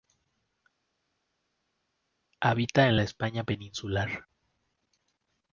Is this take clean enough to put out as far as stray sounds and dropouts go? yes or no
yes